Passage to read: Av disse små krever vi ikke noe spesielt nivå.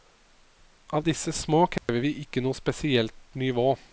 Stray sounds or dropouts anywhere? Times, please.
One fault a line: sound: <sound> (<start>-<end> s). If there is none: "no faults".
sound: dropout (1.8-1.9 s)